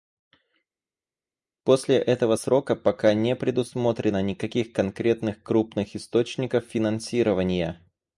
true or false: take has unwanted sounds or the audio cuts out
false